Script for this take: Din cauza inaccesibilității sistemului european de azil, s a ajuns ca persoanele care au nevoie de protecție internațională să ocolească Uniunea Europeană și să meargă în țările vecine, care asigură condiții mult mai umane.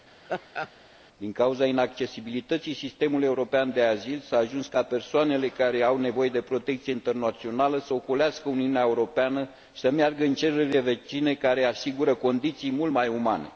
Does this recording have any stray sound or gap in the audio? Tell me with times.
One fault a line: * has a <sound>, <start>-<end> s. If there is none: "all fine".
* has a laugh, 0.3-0.7 s